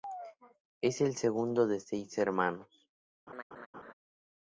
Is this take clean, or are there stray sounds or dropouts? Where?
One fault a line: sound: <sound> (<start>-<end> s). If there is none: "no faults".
sound: laugh (3.3-3.9 s)